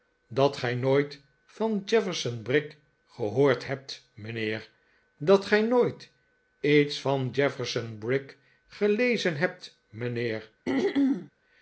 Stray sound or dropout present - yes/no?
yes